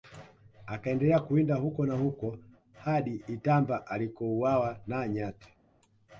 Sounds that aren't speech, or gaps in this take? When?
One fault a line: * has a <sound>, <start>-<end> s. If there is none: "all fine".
all fine